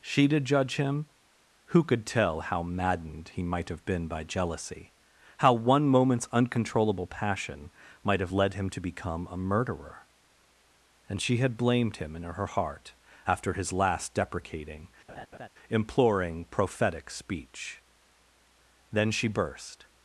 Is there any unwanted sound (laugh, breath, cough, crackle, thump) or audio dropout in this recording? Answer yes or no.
yes